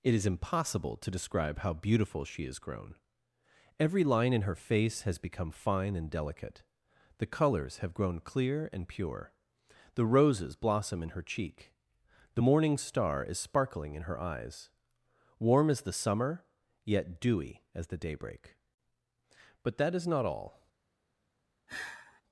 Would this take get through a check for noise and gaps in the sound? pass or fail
fail